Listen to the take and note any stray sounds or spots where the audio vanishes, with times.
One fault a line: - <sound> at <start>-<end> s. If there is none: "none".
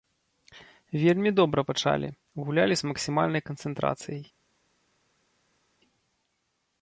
none